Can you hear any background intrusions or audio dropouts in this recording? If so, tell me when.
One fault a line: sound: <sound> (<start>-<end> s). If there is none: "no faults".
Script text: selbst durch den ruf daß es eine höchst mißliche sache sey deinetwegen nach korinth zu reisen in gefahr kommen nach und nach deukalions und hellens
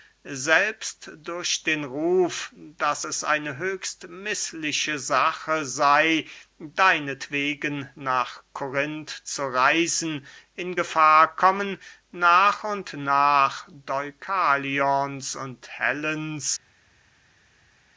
no faults